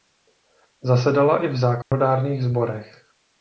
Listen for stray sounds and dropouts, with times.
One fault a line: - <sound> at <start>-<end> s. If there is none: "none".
- dropout at 1.8-1.9 s